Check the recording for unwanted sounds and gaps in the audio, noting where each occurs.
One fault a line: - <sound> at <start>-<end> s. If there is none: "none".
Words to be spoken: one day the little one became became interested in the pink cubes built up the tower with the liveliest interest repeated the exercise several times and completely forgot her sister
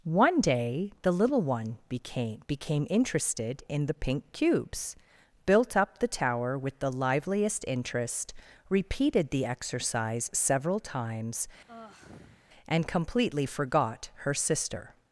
- sigh at 11.7-12.5 s